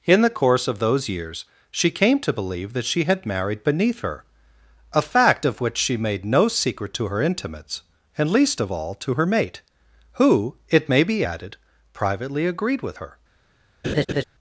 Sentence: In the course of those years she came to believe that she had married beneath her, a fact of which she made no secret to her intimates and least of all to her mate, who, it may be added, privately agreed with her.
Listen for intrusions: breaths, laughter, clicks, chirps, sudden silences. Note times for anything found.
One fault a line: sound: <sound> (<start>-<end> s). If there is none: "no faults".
sound: laugh (13.8-14.2 s)